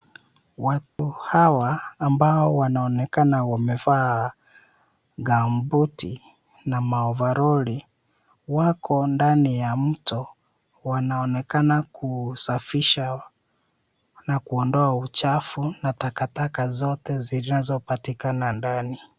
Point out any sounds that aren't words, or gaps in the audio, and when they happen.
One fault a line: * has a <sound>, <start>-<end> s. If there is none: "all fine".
* has a dropout, 0.9-1.0 s